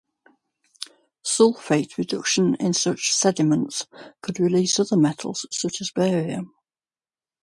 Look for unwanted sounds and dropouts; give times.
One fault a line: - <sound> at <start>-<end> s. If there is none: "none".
none